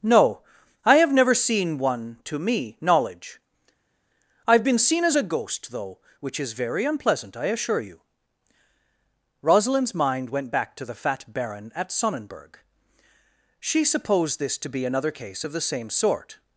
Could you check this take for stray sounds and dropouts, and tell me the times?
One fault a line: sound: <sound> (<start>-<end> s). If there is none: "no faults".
no faults